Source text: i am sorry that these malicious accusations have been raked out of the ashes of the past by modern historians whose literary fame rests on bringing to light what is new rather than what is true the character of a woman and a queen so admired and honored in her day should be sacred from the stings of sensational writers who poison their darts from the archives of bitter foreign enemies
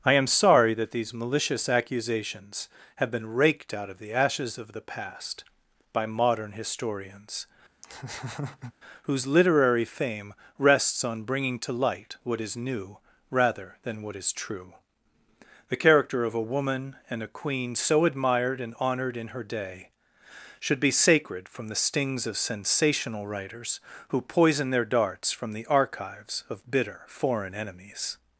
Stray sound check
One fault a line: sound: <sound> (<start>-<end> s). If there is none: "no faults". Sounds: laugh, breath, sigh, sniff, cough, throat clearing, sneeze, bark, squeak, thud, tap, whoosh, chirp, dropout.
sound: laugh (7.8-8.7 s)